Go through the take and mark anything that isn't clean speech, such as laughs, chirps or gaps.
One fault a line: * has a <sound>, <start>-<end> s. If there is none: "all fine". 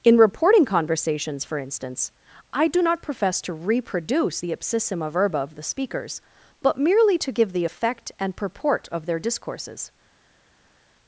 all fine